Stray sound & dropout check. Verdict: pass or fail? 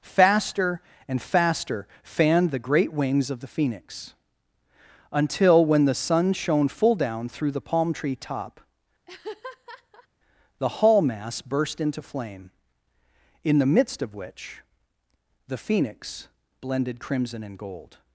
fail